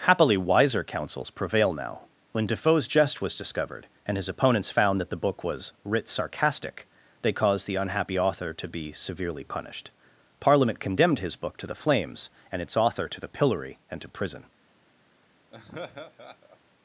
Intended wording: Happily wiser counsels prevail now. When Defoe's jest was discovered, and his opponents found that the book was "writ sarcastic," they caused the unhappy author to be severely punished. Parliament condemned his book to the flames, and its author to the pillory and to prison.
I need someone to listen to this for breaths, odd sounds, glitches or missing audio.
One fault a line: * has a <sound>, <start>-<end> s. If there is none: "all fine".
* has a laugh, 15.5-16.6 s